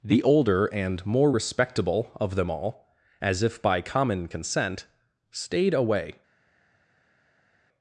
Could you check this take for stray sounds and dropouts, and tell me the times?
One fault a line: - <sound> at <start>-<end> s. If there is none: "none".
none